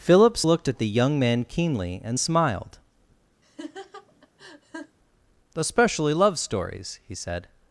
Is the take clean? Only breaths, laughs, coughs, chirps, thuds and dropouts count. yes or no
no